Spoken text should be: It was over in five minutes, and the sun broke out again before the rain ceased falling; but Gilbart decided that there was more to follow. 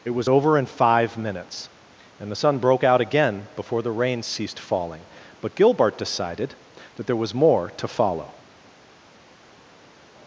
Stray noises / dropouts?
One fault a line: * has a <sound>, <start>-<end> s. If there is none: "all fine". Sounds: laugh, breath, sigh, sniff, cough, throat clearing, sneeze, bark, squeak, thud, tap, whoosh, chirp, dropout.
all fine